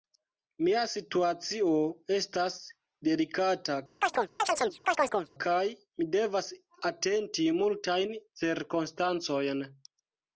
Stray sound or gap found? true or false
true